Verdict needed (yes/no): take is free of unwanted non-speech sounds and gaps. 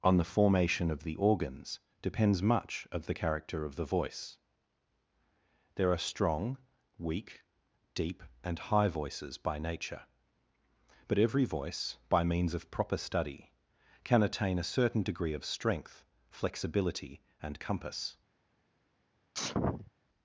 no